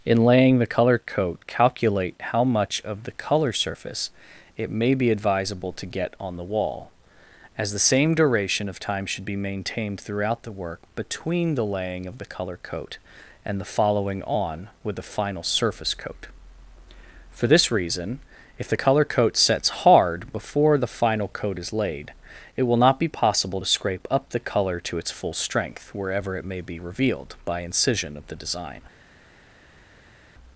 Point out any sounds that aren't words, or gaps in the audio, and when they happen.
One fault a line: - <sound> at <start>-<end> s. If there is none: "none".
none